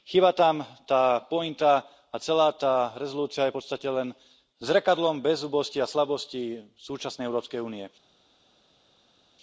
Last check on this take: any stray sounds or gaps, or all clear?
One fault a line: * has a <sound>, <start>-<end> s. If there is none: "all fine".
all fine